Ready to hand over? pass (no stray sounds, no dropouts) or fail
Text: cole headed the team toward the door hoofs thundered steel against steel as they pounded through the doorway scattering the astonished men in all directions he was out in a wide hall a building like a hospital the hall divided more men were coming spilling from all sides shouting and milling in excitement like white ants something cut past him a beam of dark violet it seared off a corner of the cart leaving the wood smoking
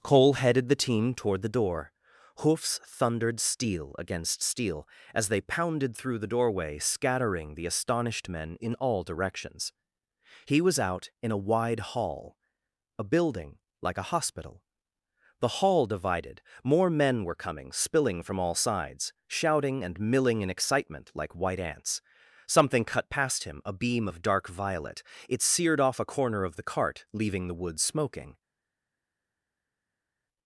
pass